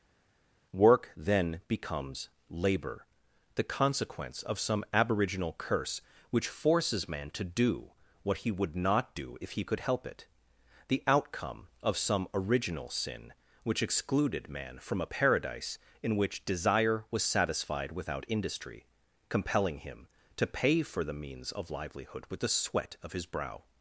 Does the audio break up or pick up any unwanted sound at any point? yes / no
no